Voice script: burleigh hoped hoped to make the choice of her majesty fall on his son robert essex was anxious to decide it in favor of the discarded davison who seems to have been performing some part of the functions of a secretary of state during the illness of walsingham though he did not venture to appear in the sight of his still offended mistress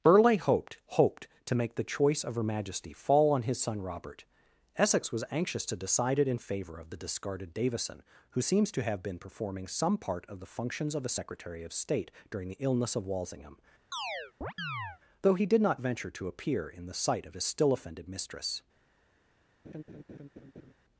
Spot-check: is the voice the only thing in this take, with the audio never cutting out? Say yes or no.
no